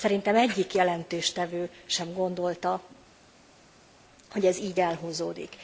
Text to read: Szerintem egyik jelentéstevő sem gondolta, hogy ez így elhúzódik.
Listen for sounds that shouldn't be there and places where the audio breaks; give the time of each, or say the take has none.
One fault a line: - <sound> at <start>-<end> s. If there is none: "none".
none